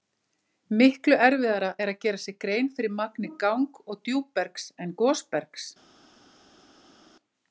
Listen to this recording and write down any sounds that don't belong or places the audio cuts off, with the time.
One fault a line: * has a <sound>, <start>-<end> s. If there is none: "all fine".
all fine